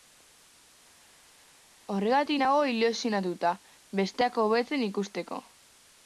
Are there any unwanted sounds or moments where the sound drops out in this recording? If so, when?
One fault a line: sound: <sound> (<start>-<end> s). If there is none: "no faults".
no faults